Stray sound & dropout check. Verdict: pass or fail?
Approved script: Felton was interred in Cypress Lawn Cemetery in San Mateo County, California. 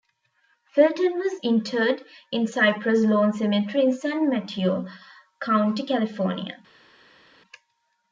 pass